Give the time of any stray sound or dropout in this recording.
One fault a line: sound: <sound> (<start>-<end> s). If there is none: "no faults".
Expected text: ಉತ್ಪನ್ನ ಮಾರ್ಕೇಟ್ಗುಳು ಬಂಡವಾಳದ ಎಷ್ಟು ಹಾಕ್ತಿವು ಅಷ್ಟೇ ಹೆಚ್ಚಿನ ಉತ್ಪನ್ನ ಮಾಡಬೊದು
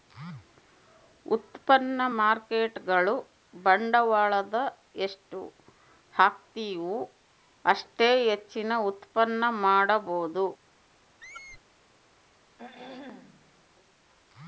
sound: squeak (11.2-11.6 s)
sound: throat clearing (12.6-13.6 s)